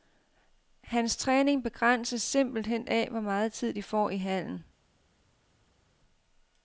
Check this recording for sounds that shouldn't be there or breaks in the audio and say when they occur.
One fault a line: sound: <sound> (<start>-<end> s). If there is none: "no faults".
no faults